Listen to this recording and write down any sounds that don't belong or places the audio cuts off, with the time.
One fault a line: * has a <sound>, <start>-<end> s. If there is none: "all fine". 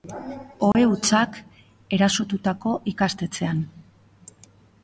* has a dropout, 0.7-0.7 s